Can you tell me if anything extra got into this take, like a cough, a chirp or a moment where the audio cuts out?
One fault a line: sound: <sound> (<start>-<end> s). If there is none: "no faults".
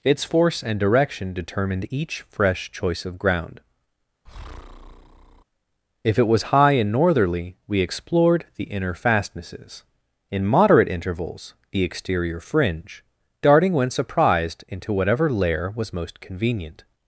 sound: breath (4.3-5.4 s)